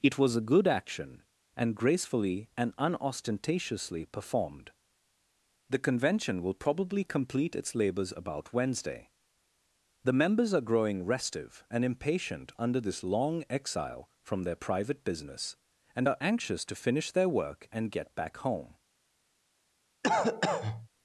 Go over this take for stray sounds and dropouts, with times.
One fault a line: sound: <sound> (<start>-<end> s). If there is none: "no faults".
sound: cough (20.0-20.9 s)